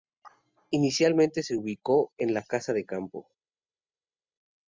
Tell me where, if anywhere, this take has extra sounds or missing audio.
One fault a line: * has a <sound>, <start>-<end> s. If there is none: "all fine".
all fine